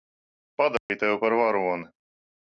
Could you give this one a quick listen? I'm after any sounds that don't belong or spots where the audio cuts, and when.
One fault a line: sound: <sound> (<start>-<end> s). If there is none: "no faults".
sound: dropout (0.8-0.9 s)